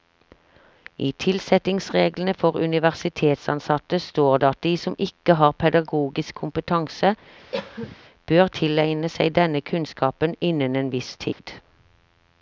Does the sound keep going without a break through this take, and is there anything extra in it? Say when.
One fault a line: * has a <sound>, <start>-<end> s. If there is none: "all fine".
* has a cough, 7.5-8.0 s
* has a dropout, 11.3-11.4 s